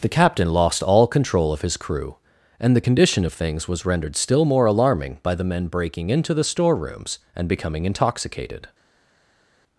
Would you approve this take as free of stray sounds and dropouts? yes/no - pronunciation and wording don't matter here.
yes